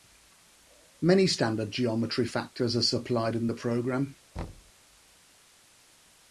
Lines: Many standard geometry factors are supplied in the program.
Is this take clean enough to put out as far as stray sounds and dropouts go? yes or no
no